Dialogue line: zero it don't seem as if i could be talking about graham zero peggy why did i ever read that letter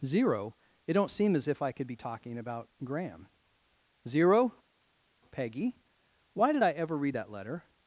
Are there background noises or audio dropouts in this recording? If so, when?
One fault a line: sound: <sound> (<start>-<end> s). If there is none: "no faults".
no faults